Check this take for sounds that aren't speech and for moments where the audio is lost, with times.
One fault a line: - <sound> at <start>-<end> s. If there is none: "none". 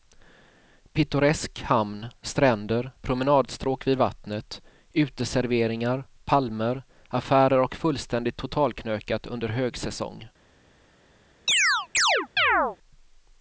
- chirp at 11.5-12.8 s